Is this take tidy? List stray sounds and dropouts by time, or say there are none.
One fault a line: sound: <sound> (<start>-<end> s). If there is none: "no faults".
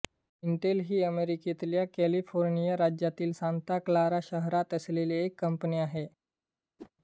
sound: whoosh (6.8-6.9 s)